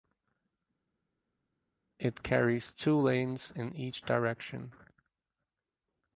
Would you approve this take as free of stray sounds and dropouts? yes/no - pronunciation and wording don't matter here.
yes